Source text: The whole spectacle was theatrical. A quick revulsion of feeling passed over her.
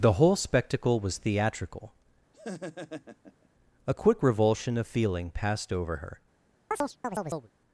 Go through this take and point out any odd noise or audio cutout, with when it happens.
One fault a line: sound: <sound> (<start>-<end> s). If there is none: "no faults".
sound: laugh (2.3-3.5 s)
sound: chirp (6.7-7.5 s)